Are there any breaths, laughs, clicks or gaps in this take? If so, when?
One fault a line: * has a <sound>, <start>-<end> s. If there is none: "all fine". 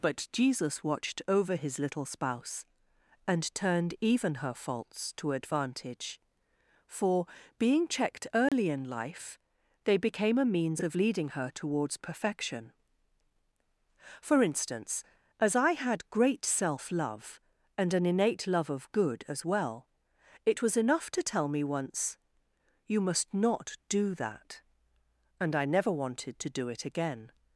* has a dropout, 8.5-8.5 s